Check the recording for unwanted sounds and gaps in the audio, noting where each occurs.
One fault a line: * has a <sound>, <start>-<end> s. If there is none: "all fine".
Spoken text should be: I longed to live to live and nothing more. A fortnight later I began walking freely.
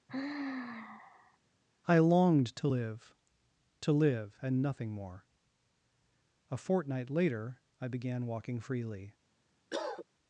* has a sigh, 0.1-1.4 s
* has a cough, 9.7-10.1 s